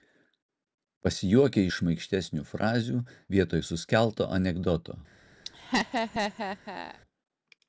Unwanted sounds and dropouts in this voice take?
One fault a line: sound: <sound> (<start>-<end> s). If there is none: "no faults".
sound: laugh (5.5-7.0 s)